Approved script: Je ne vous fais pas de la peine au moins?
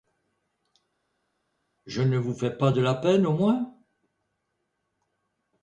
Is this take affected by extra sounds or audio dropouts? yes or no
no